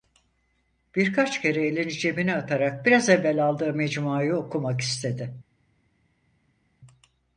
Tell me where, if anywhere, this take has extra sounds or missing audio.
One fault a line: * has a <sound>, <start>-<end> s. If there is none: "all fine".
all fine